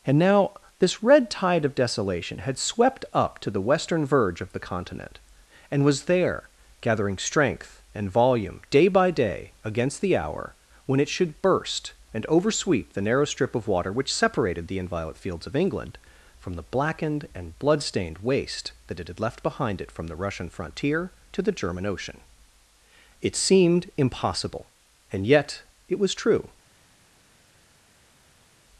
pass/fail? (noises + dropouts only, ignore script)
pass